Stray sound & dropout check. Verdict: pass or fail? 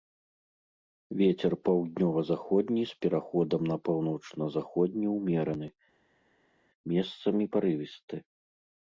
pass